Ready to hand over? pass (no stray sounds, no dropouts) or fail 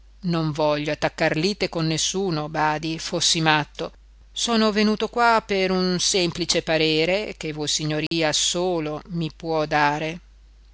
fail